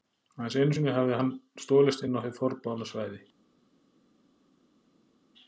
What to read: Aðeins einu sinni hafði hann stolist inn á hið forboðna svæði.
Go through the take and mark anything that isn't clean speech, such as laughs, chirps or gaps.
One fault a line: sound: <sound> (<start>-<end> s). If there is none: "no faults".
no faults